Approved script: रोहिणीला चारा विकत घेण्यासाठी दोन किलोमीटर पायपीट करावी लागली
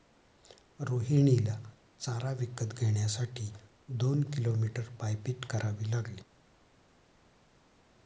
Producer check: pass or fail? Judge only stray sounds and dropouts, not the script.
pass